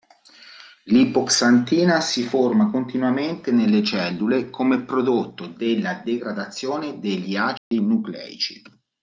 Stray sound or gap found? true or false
true